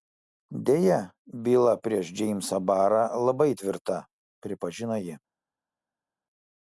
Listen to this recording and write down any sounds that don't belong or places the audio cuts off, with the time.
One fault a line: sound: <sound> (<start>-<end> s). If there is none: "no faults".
no faults